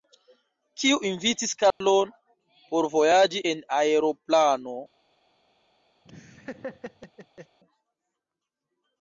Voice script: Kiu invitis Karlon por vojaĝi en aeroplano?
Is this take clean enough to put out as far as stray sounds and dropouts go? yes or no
no